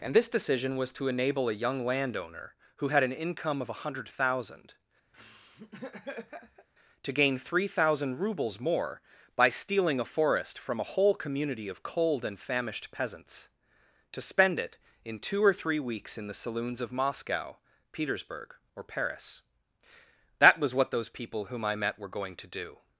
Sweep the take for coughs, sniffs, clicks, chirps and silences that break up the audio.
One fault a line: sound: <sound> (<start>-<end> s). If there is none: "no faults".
sound: laugh (5.1-6.7 s)